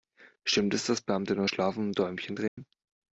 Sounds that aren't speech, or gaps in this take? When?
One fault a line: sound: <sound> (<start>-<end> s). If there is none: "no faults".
sound: dropout (2.5-2.6 s)